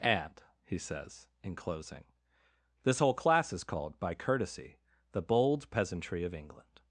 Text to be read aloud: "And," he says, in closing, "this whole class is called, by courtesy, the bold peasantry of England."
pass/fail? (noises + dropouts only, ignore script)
pass